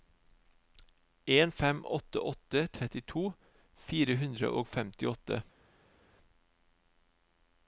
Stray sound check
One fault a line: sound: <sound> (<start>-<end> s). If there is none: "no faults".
no faults